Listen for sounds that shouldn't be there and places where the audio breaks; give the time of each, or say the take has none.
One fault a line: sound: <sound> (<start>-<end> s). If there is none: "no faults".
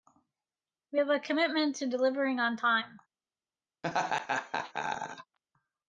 sound: laugh (3.8-5.4 s)